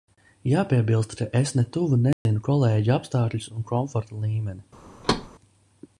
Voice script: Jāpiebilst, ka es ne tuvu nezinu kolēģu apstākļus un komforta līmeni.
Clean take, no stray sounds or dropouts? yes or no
no